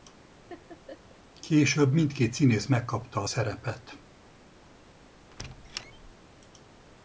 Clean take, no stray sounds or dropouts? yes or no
no